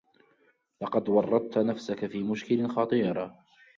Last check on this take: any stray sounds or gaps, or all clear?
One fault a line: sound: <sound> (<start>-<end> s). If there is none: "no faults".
no faults